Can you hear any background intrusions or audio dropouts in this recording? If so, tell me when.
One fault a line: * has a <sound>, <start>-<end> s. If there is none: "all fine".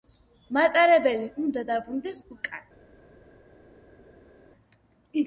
all fine